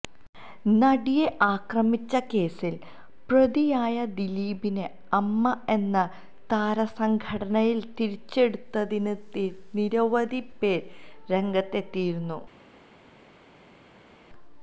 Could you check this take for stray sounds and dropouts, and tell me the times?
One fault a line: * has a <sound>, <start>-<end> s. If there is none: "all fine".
all fine